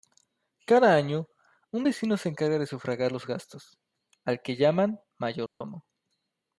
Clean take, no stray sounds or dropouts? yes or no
no